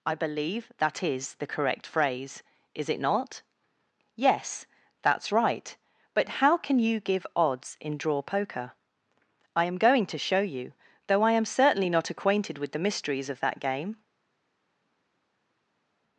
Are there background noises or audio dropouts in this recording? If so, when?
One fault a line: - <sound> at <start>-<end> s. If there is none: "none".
none